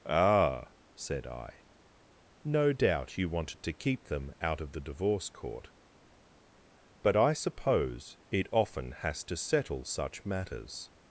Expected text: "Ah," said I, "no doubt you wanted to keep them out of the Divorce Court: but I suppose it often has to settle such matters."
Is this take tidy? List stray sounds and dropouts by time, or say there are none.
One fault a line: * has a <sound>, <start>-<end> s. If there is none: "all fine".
all fine